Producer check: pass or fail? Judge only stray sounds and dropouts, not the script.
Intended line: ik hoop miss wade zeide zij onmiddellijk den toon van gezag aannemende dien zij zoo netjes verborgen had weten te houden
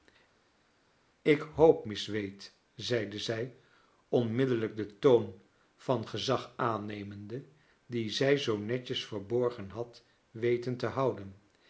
pass